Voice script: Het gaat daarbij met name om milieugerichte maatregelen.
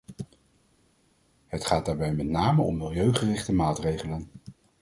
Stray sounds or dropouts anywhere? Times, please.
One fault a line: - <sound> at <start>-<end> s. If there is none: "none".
none